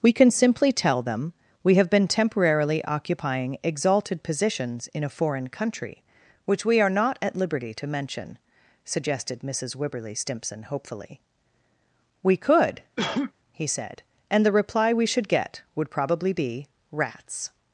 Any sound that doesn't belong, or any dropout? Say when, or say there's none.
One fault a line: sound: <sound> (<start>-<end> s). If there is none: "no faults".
sound: cough (13.0-13.3 s)